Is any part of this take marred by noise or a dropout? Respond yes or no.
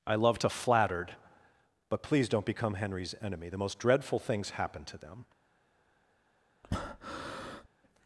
yes